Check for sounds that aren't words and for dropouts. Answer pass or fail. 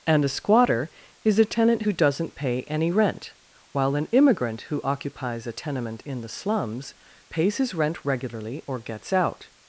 pass